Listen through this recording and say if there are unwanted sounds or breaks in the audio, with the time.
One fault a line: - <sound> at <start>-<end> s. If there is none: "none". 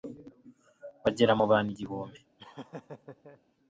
- laugh at 2.4-3.4 s